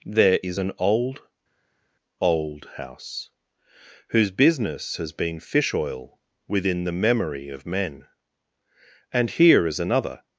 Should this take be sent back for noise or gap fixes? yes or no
no